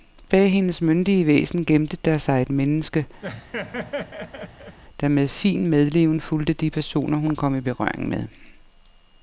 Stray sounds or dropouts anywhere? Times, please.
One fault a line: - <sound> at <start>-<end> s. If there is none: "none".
- laugh at 3.2-4.8 s